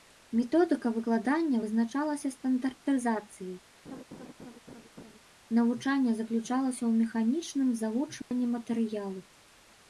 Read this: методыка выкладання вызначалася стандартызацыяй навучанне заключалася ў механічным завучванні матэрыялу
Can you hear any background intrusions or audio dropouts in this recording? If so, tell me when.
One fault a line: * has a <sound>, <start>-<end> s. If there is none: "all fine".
* has a laugh, 3.8-5.2 s
* has a dropout, 8.2-8.3 s